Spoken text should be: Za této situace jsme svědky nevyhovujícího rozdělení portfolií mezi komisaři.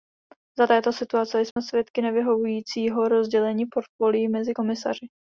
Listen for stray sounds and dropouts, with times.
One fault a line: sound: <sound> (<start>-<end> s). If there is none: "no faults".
sound: dropout (1.5-1.6 s)